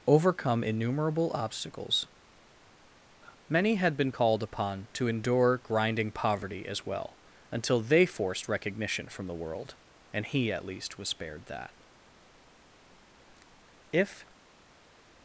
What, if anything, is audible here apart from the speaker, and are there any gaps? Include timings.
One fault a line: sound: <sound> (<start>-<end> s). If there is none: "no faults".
no faults